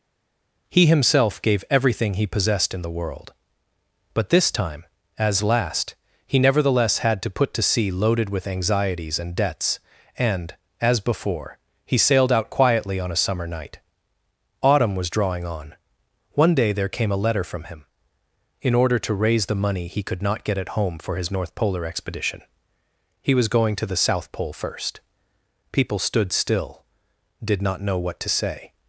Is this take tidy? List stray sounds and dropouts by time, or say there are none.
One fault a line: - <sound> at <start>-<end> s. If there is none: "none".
none